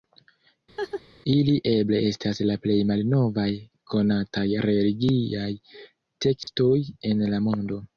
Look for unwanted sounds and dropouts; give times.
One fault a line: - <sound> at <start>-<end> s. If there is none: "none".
- laugh at 0.8-1.0 s
- dropout at 6.4-6.5 s